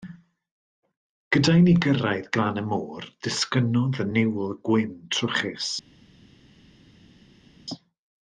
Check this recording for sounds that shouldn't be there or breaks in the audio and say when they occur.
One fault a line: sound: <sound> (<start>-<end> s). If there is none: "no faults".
no faults